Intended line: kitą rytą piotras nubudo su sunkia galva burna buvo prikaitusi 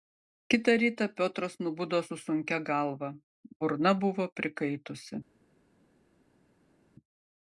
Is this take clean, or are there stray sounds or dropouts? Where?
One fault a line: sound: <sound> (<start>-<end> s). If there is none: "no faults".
no faults